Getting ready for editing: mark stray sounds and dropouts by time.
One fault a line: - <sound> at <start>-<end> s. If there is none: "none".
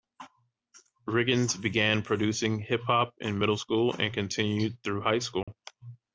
- dropout at 5.4-5.5 s